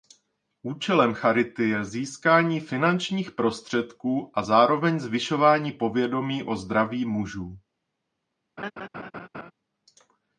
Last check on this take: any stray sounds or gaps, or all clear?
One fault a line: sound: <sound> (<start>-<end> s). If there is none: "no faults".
sound: laugh (8.6-9.5 s)